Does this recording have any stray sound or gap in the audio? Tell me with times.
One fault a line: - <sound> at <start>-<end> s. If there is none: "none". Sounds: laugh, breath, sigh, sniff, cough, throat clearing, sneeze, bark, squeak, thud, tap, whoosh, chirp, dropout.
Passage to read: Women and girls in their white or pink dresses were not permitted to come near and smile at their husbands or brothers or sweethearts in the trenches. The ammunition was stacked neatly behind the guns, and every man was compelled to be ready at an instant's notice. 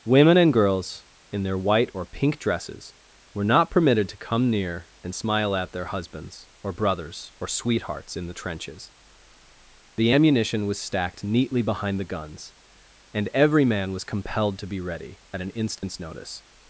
- dropout at 15.8-15.8 s